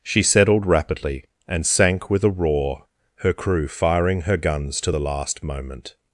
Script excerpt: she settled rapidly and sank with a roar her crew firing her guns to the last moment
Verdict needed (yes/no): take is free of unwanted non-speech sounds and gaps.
yes